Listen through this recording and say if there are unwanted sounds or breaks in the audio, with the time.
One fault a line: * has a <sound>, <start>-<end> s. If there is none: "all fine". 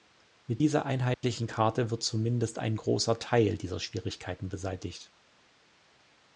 * has a dropout, 1.1-1.2 s